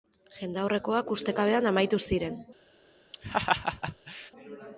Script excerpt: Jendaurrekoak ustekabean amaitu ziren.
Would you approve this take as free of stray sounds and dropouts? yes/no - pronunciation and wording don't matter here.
no